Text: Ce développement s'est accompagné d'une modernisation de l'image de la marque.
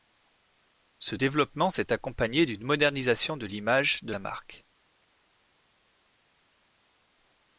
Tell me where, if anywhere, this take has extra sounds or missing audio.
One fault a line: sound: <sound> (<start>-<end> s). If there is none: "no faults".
no faults